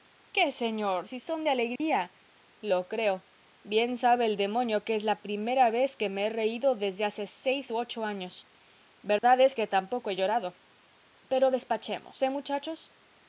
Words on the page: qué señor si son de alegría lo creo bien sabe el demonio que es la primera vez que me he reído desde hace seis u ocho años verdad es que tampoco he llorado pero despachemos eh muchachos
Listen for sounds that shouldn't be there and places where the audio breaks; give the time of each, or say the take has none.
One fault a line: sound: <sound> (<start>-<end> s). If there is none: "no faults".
sound: dropout (1.8-1.8 s)
sound: dropout (9.2-9.2 s)